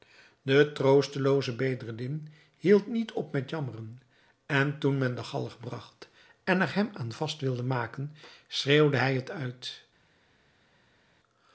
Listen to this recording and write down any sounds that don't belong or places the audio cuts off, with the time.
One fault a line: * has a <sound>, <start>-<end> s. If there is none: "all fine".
all fine